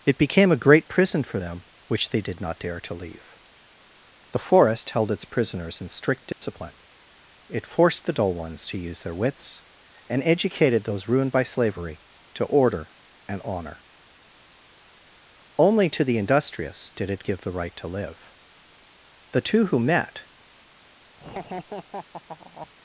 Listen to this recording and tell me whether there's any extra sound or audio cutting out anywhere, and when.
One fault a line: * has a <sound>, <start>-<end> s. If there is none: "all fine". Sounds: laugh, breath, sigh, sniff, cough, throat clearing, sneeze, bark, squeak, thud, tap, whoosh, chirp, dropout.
* has a dropout, 6.3-6.4 s
* has a laugh, 21.2-22.7 s